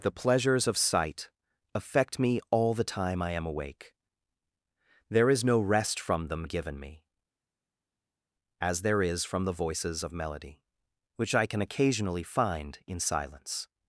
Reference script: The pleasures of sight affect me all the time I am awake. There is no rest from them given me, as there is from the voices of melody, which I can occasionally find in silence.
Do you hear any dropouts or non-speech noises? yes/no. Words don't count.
no